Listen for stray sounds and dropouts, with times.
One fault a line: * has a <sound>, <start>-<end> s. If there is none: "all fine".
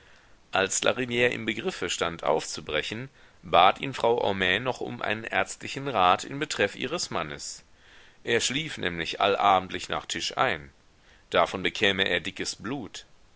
all fine